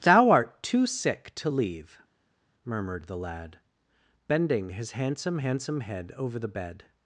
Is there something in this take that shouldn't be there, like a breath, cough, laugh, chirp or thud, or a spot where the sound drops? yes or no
no